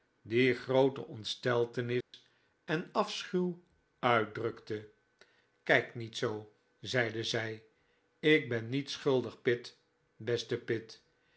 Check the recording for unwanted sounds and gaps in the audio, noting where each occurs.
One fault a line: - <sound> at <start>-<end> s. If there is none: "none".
- dropout at 2.0-2.1 s